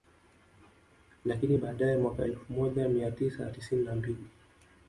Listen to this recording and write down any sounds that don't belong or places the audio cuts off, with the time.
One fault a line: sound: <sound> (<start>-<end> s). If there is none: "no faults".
no faults